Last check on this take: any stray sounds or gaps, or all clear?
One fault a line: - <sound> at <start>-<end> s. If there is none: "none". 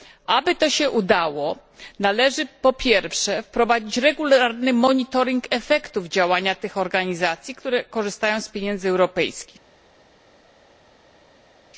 none